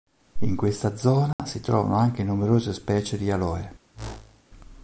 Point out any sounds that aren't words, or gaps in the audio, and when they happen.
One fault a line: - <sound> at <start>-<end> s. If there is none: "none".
- dropout at 1.3-1.4 s
- whoosh at 3.9-4.4 s